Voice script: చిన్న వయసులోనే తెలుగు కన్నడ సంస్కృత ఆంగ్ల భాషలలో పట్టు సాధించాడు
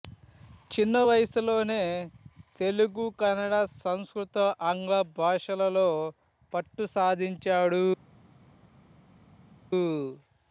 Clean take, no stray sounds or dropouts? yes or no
yes